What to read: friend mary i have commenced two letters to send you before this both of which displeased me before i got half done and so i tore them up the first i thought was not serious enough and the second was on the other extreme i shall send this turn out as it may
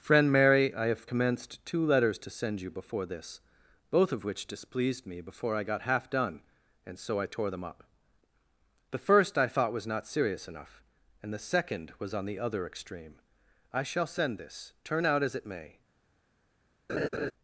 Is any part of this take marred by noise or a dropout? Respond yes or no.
yes